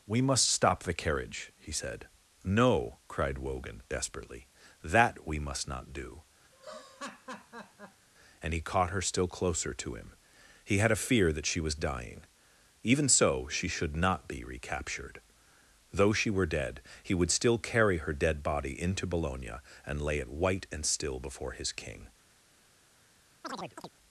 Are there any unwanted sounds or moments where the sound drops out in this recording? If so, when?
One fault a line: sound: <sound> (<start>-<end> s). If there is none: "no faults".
sound: laugh (6.5-8.1 s)
sound: chirp (23.4-23.9 s)